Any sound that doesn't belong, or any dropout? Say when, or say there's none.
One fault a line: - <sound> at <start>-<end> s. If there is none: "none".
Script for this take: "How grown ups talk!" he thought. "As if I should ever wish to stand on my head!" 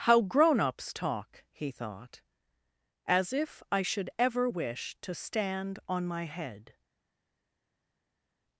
none